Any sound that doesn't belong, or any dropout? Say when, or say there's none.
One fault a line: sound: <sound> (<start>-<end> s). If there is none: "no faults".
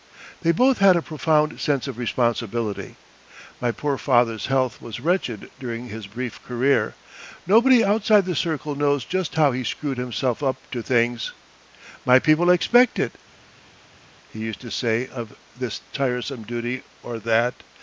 no faults